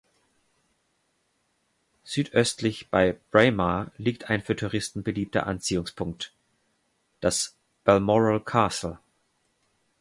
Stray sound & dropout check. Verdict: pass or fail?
pass